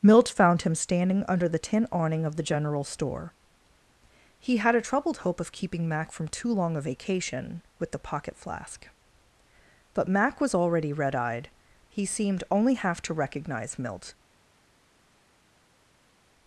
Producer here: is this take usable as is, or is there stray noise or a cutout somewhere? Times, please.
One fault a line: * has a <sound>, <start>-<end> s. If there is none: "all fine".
all fine